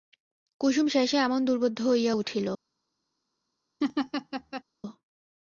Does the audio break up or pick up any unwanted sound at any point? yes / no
yes